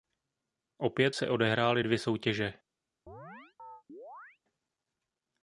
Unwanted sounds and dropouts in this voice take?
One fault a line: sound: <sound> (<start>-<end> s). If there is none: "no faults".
sound: chirp (3.1-4.4 s)